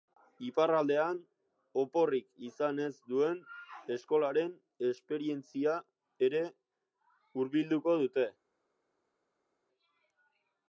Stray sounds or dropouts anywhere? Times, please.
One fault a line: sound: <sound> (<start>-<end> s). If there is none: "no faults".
no faults